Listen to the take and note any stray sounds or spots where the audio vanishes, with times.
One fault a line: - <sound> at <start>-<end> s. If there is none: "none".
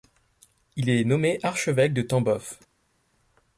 none